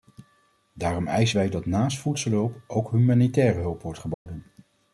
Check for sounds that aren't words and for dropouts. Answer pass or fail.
fail